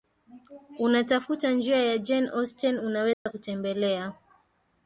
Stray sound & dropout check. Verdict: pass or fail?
fail